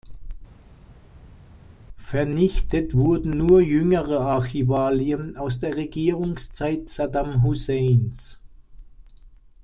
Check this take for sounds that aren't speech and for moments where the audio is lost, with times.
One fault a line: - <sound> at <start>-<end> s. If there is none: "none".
none